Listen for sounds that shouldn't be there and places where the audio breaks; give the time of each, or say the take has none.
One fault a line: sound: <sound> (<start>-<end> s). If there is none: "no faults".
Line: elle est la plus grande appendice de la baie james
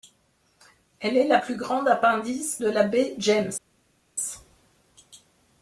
no faults